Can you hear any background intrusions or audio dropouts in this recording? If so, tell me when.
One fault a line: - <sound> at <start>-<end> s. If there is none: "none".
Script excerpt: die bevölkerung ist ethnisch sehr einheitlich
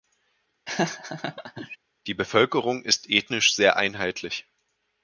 - laugh at 0.7-1.8 s